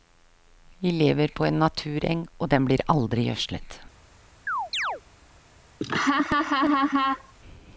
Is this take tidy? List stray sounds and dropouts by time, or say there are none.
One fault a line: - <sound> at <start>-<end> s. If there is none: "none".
- chirp at 4.5-5.0 s
- laugh at 5.8-7.3 s